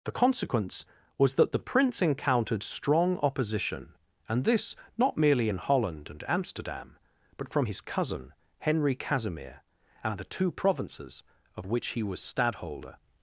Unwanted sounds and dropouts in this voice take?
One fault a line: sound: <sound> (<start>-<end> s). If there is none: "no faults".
no faults